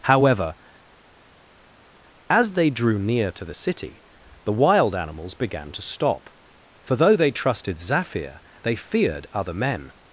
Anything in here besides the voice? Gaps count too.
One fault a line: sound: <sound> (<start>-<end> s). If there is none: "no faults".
no faults